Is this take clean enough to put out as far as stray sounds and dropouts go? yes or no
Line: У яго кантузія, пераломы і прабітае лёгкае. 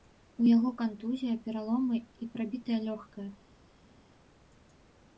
yes